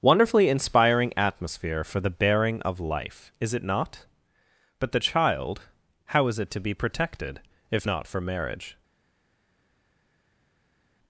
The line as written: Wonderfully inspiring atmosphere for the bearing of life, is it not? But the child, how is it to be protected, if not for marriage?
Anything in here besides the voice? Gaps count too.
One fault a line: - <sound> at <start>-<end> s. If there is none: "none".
none